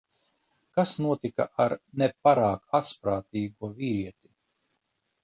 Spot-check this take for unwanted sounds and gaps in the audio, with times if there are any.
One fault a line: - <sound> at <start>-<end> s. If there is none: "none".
none